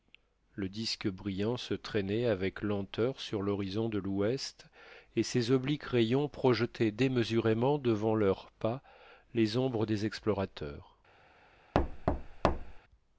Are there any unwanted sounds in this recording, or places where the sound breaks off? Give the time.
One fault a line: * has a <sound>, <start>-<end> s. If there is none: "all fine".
* has a thud, 11.7-12.8 s